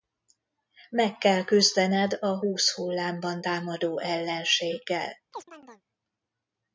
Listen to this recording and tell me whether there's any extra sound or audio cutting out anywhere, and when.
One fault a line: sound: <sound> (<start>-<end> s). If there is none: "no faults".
sound: chirp (5.3-5.8 s)